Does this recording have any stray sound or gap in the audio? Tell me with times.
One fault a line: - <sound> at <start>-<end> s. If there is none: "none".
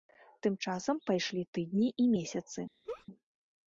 - laugh at 2.8-3.1 s